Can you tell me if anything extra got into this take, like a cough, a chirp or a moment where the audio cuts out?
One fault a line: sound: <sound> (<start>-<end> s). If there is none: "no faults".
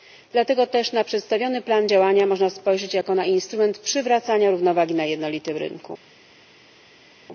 no faults